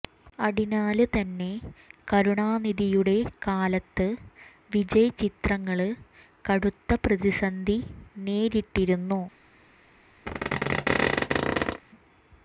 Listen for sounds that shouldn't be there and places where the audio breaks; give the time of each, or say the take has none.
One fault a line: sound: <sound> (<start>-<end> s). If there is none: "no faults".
sound: squeak (10.3-11.8 s)